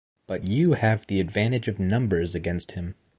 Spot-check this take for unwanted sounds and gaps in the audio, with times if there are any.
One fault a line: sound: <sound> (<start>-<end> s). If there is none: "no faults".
no faults